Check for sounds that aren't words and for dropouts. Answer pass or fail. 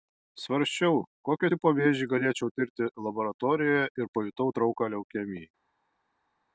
pass